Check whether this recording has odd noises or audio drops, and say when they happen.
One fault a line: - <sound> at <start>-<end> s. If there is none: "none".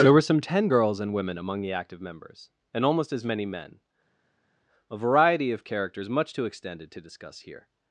none